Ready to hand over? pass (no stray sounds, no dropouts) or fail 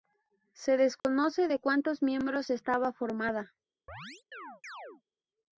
fail